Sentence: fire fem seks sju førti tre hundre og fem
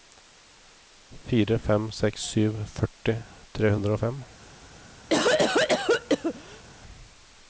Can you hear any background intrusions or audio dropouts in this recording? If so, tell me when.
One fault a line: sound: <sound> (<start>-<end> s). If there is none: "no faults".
sound: cough (5.1-6.6 s)